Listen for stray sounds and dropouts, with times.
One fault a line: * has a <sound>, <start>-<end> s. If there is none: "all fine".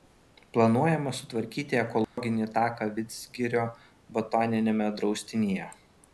* has a dropout, 2.0-2.2 s